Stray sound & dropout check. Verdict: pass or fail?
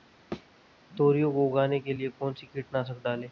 fail